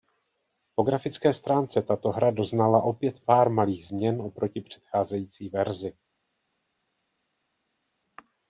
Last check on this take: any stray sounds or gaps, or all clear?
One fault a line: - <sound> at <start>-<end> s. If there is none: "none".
none